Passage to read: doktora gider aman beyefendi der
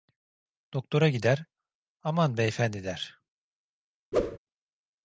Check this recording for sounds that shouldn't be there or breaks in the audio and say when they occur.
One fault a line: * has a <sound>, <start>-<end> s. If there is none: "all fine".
* has a whoosh, 4.1-4.4 s